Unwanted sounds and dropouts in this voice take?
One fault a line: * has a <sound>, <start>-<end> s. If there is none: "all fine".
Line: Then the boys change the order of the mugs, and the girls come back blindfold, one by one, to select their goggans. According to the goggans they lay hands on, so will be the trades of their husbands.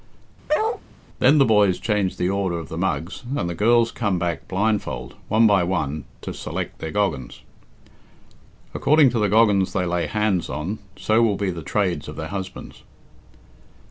* has a bark, 0.5-0.8 s